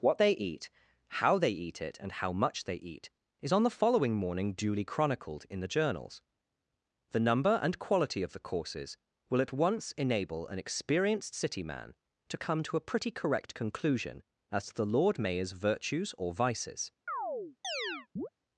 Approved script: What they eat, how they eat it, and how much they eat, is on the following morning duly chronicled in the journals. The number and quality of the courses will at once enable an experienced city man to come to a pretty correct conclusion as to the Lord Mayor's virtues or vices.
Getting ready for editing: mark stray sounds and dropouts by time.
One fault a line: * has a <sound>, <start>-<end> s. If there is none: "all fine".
* has a chirp, 17.1-18.3 s